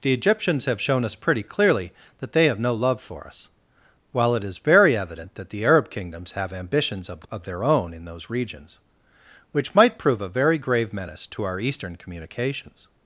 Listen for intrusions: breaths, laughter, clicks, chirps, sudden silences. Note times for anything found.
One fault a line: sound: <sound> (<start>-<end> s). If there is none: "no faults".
no faults